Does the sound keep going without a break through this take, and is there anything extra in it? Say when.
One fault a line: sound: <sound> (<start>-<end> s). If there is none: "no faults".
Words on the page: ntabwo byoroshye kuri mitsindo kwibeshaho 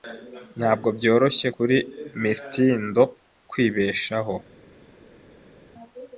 no faults